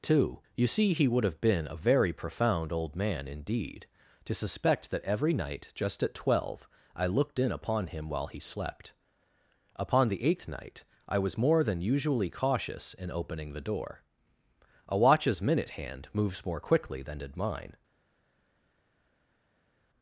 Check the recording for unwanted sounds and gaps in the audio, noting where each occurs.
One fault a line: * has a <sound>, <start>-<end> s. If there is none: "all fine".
all fine